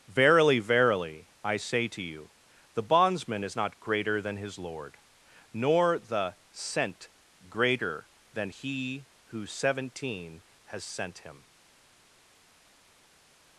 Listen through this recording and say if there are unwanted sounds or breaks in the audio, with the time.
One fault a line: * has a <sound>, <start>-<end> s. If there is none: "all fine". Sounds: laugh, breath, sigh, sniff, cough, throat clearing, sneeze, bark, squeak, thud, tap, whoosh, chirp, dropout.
all fine